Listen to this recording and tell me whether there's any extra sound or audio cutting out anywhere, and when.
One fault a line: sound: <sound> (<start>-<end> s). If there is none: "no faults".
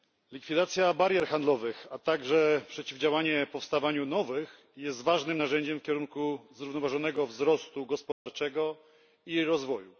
sound: dropout (8.1-8.3 s)